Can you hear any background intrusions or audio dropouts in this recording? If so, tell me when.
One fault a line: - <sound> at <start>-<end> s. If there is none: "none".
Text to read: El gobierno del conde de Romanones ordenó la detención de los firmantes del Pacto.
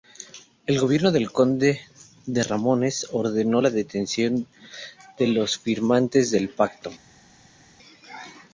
none